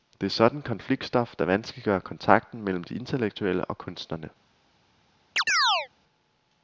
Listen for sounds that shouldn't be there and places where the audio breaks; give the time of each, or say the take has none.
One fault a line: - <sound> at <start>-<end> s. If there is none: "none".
- chirp at 5.4-5.9 s